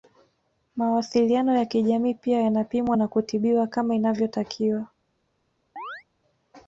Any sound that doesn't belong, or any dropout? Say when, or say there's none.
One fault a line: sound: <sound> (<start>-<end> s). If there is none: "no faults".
sound: chirp (5.8-6.0 s)